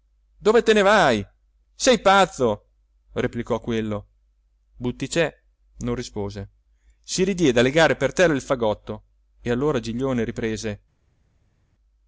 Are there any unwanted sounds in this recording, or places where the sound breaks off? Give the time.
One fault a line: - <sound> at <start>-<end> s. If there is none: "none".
none